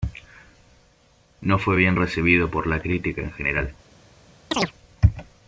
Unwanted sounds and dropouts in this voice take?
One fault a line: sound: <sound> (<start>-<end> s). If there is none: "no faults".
sound: chirp (4.5-4.7 s)